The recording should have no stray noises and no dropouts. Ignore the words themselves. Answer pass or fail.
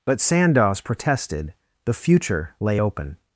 pass